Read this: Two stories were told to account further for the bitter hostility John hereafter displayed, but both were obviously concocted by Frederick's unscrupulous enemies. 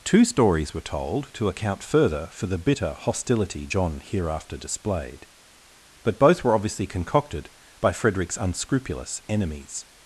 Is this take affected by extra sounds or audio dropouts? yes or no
no